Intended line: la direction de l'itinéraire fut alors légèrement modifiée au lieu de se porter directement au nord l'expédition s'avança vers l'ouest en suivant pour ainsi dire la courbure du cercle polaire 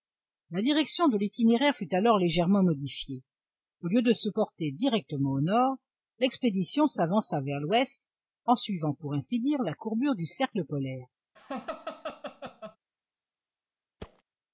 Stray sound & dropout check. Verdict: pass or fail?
fail